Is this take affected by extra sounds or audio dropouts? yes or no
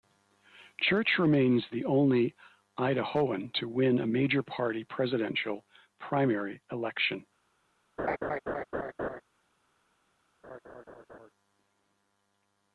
yes